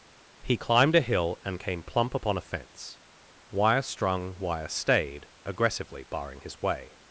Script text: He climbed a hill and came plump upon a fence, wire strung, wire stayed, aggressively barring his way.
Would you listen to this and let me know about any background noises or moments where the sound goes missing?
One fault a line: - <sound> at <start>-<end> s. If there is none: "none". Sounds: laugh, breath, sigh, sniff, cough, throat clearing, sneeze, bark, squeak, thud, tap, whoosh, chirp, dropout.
none